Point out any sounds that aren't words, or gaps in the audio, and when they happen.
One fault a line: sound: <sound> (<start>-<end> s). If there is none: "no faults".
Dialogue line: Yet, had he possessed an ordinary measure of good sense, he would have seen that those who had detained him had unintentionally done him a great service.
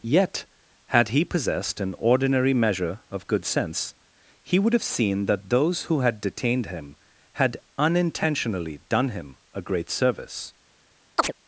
sound: chirp (11.2-11.3 s)